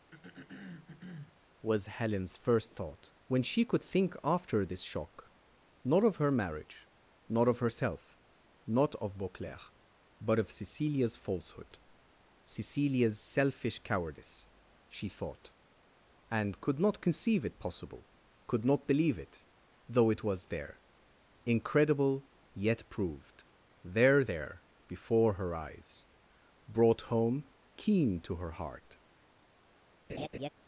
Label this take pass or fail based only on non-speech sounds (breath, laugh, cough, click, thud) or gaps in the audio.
fail